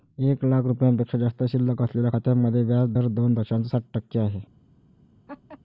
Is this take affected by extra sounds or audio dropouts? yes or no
yes